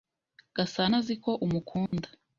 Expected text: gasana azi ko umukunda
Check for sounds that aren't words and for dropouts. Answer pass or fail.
fail